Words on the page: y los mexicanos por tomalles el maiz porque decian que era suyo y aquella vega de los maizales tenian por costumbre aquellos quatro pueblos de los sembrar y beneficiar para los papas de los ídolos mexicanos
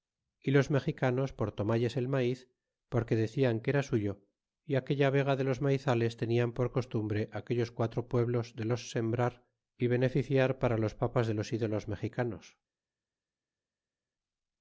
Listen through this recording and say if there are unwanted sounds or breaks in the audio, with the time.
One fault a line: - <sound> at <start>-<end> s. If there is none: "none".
none